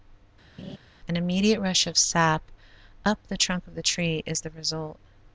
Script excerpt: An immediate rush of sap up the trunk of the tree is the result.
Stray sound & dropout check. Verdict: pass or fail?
fail